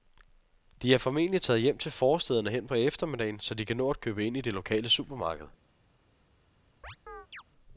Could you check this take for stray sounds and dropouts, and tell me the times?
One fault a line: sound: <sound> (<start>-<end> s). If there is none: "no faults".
sound: chirp (6.8-7.4 s)